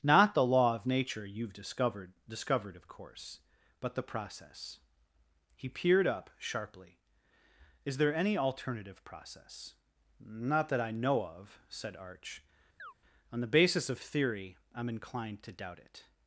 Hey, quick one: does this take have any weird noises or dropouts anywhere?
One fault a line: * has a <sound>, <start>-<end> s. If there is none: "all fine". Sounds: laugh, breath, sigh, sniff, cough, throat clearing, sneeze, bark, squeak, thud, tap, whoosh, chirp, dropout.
* has a chirp, 12.8-12.9 s